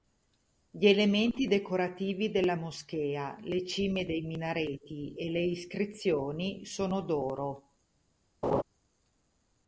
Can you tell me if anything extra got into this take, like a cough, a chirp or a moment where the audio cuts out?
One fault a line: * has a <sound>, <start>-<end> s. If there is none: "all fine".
* has a laugh, 8.4-8.6 s